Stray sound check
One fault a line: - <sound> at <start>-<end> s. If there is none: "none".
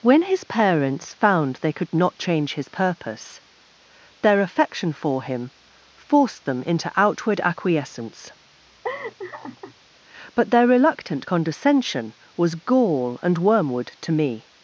- laugh at 8.8-9.7 s